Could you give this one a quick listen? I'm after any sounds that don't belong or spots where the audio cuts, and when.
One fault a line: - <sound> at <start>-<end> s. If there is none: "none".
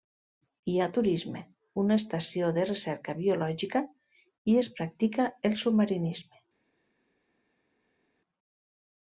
none